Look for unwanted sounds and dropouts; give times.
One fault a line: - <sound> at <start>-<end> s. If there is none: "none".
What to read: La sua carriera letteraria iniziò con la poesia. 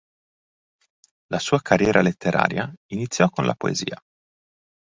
none